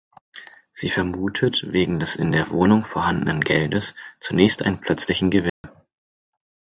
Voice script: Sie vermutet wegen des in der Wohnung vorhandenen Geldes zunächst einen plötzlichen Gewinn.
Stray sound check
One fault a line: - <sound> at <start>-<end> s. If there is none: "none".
- dropout at 5.5-5.6 s